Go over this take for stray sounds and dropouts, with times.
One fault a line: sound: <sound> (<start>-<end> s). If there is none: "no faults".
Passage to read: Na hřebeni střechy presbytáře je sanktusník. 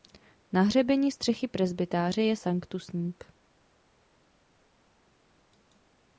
no faults